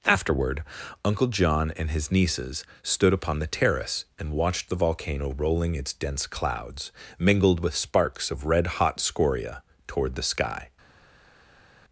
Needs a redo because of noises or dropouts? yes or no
no